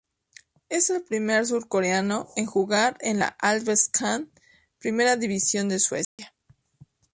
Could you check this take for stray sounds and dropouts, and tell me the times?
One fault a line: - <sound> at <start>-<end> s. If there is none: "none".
- dropout at 6.0-6.2 s